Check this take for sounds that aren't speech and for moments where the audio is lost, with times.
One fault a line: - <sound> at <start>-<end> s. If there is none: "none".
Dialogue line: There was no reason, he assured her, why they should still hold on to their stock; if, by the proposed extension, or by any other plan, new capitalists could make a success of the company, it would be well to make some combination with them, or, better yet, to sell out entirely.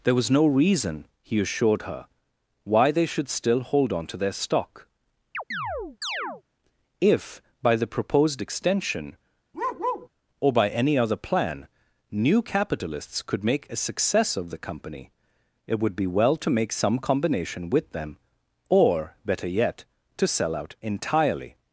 - chirp at 5.3-6.4 s
- bark at 9.5-10.1 s